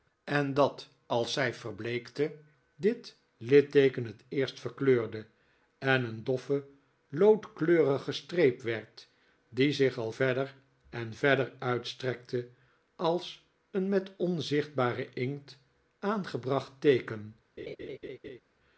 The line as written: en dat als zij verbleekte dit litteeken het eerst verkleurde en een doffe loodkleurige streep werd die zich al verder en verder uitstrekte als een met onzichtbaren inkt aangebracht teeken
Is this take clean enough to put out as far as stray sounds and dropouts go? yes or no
no